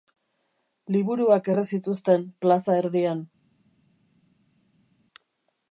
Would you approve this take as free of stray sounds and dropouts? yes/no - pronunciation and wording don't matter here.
yes